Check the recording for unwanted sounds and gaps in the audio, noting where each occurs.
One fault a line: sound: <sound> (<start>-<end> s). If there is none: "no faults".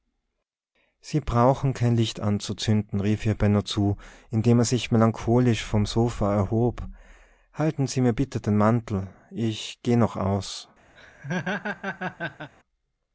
sound: laugh (11.0-12.5 s)